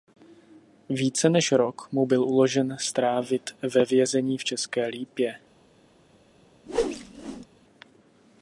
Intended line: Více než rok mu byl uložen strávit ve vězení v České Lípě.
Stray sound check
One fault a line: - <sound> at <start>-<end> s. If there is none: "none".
- whoosh at 6.7-7.5 s